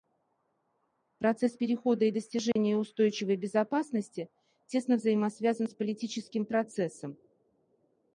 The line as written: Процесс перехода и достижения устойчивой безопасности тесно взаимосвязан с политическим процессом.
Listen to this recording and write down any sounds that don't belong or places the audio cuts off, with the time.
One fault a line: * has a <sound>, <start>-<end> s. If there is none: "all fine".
* has a dropout, 2.5-2.6 s